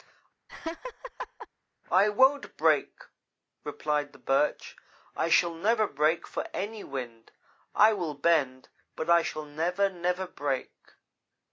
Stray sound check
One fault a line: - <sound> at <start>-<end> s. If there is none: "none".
- laugh at 0.5-1.5 s